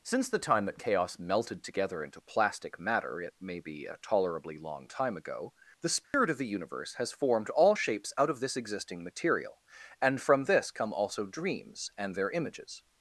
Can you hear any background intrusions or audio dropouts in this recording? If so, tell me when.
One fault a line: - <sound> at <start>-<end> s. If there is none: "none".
- dropout at 6.0-6.1 s